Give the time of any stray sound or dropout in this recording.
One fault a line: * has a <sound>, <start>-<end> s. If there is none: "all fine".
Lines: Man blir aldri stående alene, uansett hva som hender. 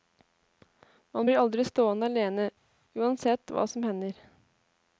all fine